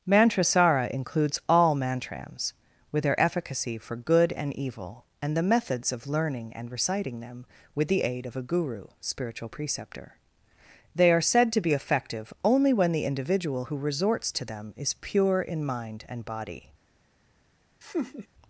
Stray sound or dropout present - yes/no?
yes